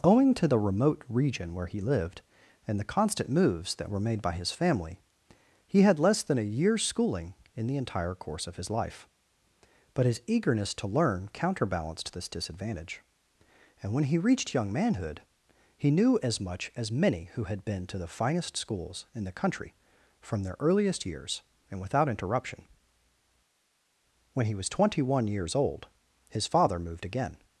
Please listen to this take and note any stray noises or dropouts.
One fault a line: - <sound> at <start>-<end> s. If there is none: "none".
none